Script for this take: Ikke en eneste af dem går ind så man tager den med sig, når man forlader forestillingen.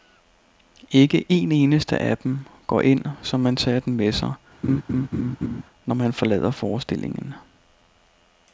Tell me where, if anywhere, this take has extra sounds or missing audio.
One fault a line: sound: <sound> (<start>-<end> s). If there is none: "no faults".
sound: laugh (4.6-5.6 s)